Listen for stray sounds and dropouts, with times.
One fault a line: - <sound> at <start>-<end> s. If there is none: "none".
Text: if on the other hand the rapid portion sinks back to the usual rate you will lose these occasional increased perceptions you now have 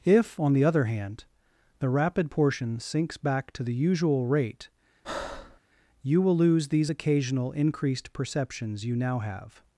- breath at 5.0-5.6 s